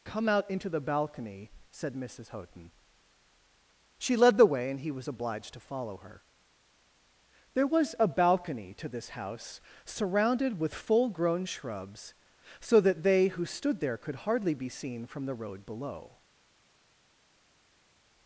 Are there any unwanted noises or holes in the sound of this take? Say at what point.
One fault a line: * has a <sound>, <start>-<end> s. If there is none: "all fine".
all fine